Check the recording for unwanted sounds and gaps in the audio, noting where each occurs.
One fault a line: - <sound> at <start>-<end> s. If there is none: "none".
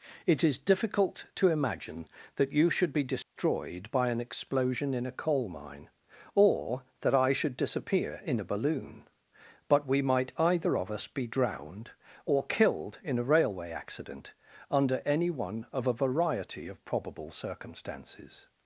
- dropout at 3.2-3.4 s